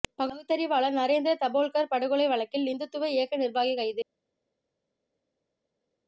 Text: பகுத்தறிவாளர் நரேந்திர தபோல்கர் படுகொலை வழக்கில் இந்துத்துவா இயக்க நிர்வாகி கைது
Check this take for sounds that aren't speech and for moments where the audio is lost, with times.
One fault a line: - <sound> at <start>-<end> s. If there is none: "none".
none